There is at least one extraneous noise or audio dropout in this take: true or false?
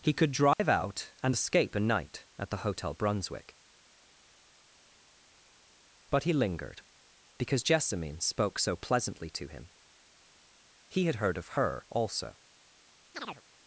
true